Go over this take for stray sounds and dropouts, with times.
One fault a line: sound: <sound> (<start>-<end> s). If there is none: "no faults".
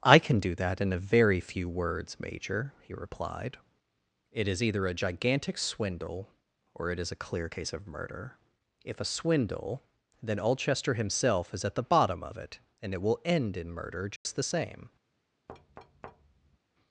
sound: dropout (14.2-14.3 s)
sound: thud (15.5-16.6 s)